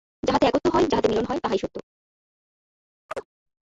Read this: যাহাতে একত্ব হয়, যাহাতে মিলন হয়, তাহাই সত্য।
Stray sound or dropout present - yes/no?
yes